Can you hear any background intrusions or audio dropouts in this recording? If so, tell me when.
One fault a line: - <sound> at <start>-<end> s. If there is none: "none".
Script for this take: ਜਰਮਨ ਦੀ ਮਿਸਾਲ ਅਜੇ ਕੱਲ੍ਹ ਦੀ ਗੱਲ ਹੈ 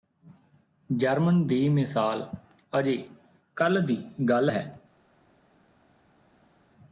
none